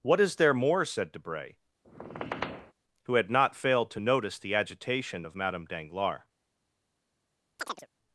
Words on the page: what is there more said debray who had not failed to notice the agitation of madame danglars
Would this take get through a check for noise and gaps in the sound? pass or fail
fail